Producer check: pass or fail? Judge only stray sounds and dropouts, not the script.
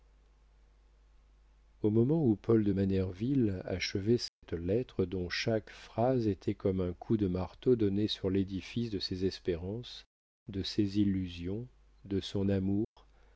fail